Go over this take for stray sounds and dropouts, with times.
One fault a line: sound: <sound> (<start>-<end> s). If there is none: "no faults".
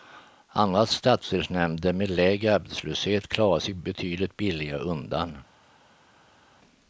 no faults